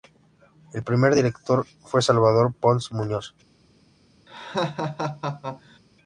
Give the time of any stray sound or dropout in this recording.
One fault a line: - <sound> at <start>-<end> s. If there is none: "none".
- laugh at 4.3-5.8 s